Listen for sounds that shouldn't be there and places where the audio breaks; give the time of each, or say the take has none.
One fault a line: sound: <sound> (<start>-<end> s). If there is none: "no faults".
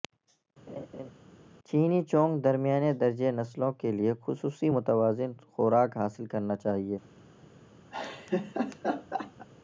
sound: laugh (0.7-1.1 s)
sound: laugh (7.9-9.5 s)